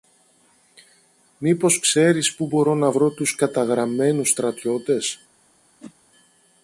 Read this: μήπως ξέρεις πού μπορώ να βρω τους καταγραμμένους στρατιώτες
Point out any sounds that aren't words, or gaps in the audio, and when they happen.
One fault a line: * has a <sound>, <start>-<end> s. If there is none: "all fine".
* has a whoosh, 5.8-5.9 s